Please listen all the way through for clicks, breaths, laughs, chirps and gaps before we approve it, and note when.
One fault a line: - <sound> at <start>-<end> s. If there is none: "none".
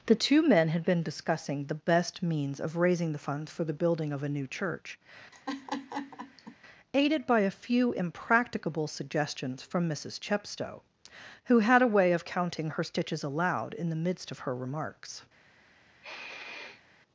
- laugh at 5.3-6.6 s
- sniff at 16.0-16.8 s